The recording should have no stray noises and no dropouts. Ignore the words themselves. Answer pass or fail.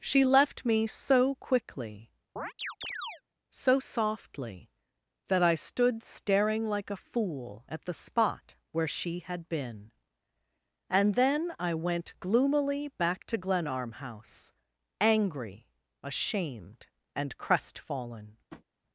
fail